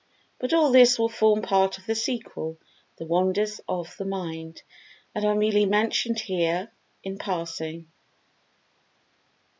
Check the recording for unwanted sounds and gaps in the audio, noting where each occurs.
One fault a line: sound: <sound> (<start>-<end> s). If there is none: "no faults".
no faults